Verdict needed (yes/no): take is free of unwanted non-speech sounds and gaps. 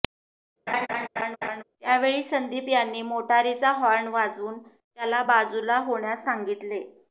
no